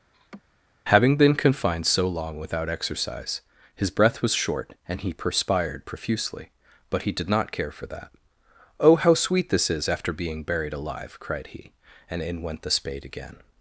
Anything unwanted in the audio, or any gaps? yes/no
yes